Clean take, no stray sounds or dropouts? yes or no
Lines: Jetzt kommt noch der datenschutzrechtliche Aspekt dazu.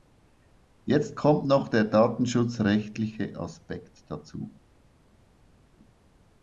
yes